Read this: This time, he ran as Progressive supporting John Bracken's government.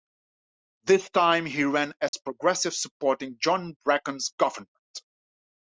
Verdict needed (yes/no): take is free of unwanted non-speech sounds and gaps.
no